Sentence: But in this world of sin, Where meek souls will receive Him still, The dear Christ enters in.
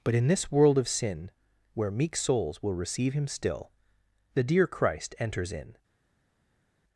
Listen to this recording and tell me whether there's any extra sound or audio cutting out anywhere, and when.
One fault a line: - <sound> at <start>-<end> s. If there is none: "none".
none